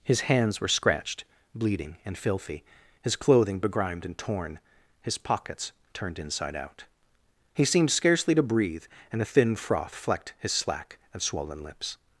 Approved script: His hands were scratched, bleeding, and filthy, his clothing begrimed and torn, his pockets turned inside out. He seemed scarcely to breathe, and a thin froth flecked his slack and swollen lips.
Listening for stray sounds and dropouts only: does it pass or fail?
pass